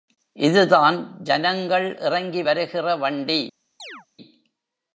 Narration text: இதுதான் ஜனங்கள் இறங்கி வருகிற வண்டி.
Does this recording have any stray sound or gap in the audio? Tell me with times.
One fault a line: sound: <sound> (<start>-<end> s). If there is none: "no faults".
sound: chirp (3.8-4.1 s)